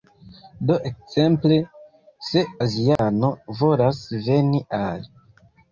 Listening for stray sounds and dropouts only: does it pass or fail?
fail